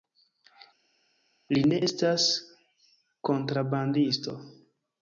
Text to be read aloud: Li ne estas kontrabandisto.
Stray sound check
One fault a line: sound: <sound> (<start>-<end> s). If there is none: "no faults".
no faults